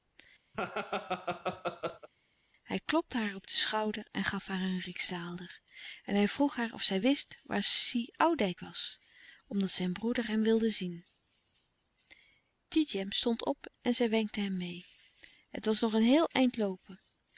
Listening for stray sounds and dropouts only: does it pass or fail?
fail